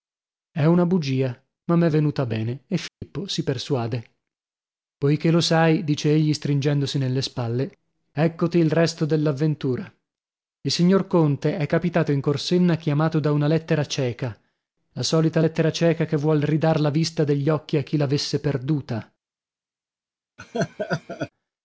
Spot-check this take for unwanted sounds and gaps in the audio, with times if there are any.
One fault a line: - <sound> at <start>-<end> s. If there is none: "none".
- dropout at 2.9-3.0 s
- laugh at 20.4-21.3 s